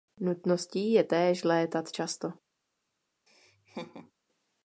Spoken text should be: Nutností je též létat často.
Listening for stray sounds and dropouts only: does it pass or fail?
fail